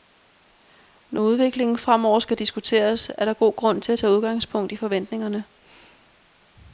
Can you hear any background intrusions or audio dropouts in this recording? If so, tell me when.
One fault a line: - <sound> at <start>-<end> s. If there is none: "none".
none